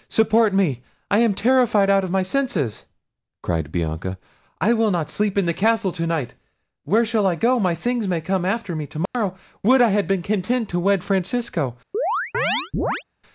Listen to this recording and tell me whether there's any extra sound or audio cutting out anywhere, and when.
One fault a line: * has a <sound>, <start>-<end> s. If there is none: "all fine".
* has a dropout, 9.1-9.1 s
* has a chirp, 11.9-13.0 s